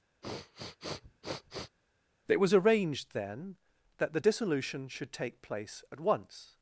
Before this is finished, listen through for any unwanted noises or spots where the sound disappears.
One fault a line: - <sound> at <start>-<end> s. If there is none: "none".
- sniff at 0.2-1.8 s